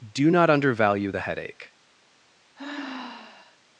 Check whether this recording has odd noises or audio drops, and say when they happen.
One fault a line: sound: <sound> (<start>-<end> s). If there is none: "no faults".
sound: sigh (2.6-3.6 s)